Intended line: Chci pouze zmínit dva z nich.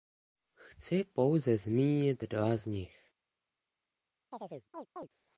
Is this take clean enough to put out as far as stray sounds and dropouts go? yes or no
no